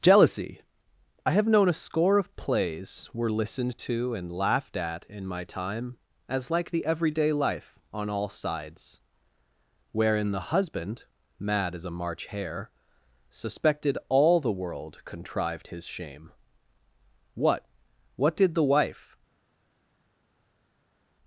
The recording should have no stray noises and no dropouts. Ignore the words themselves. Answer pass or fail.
pass